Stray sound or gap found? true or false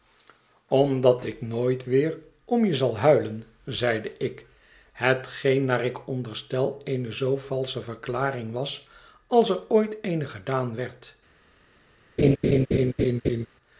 true